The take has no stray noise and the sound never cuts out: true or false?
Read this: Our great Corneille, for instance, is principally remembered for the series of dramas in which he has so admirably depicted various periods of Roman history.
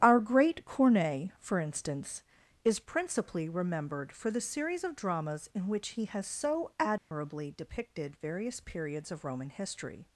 false